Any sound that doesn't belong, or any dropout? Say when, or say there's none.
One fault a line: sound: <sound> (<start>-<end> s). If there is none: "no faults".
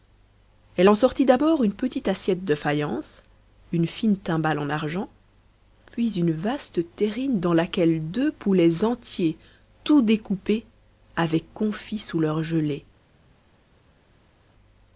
no faults